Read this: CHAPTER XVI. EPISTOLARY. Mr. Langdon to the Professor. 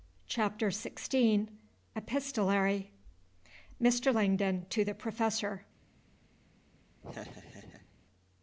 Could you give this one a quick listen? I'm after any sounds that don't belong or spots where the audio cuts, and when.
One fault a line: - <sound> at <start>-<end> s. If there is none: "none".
- laugh at 7.0-7.9 s